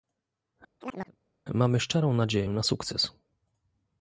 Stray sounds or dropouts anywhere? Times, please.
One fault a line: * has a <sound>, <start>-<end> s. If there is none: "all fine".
* has a chirp, 0.8-1.2 s